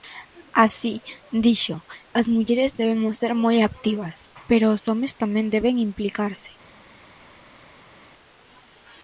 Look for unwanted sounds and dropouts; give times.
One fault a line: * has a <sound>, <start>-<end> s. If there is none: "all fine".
all fine